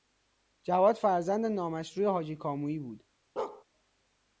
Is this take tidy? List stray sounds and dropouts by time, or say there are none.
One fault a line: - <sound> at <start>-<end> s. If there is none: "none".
- bark at 3.4-3.6 s